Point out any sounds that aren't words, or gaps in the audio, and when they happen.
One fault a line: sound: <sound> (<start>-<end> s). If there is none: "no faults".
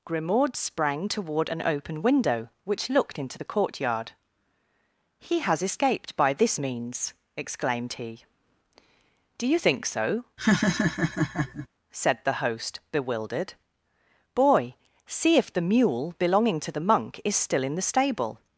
sound: laugh (10.4-11.7 s)